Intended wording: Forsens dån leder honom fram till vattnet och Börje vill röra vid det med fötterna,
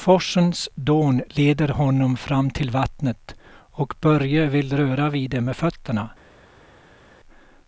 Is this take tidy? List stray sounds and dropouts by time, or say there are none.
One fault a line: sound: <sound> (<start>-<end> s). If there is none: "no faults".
no faults